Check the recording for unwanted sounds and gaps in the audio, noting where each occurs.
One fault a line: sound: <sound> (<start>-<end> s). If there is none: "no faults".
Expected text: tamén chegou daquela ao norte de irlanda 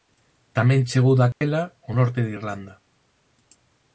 sound: dropout (1.3-1.4 s)